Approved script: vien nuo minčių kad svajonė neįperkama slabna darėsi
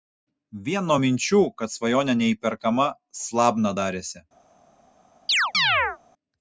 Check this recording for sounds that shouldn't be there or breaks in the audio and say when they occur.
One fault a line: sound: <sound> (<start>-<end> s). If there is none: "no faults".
sound: chirp (5.3-6.0 s)